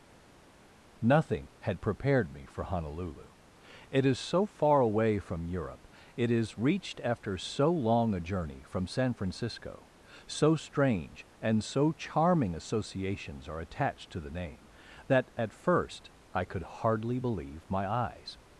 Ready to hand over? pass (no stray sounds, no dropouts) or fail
pass